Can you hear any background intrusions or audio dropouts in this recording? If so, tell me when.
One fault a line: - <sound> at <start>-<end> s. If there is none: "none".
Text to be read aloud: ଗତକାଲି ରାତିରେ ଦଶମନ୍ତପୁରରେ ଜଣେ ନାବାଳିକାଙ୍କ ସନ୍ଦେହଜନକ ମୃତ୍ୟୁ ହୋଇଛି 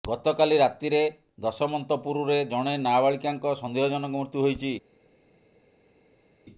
none